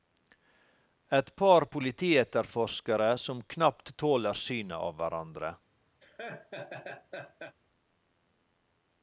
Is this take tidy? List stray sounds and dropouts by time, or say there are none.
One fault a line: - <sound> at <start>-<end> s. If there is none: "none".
- laugh at 6.0-7.6 s